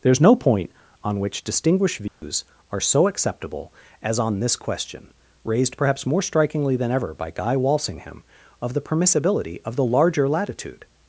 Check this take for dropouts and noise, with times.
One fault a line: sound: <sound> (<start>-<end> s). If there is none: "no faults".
sound: dropout (2.1-2.2 s)